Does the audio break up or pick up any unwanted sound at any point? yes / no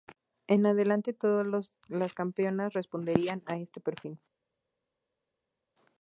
no